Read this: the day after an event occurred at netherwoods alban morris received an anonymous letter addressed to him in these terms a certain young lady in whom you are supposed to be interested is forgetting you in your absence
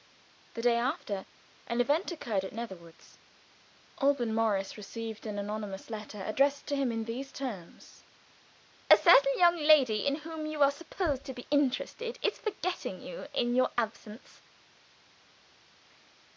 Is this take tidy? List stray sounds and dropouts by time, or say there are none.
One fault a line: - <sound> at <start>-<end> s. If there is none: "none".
none